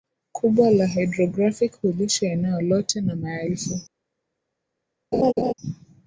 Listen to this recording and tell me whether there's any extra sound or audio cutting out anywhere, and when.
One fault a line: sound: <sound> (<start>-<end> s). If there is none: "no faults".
sound: laugh (5.1-5.5 s)